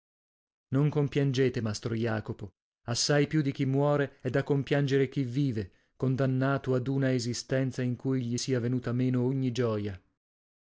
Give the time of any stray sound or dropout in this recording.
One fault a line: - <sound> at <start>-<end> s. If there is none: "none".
none